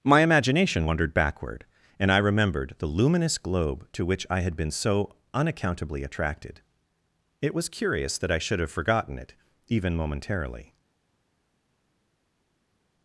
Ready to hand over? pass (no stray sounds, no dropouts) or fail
pass